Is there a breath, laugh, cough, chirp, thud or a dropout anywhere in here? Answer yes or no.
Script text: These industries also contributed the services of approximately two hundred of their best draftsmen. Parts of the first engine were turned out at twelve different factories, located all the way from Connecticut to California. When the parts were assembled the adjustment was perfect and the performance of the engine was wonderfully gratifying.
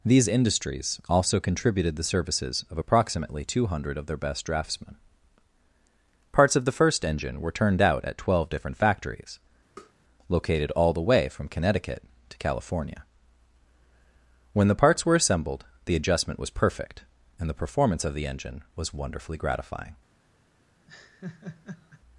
yes